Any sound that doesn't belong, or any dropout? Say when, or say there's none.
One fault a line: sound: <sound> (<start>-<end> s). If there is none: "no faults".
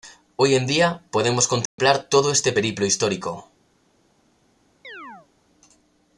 sound: dropout (1.7-1.8 s)
sound: chirp (4.8-5.3 s)